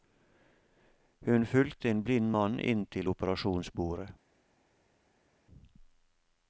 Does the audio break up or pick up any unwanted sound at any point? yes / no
no